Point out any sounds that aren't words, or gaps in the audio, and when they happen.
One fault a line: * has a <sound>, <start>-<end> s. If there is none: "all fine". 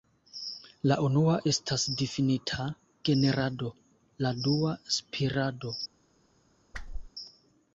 * has a whoosh, 6.7-7.1 s